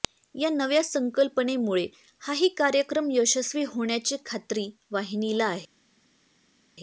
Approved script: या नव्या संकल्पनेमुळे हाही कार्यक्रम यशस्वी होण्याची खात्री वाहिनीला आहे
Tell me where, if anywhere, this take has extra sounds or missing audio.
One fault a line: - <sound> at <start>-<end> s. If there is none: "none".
none